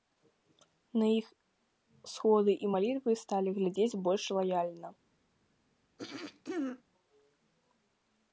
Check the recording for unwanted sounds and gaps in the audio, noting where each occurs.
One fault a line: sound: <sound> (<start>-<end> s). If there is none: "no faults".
sound: throat clearing (6.0-6.8 s)